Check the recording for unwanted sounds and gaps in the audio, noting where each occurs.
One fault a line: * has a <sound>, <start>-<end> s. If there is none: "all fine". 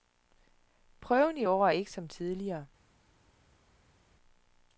all fine